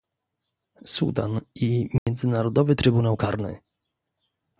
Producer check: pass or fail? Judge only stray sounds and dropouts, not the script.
fail